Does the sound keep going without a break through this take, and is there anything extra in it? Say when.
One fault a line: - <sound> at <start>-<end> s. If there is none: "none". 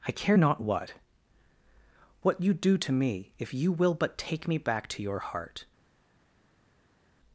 none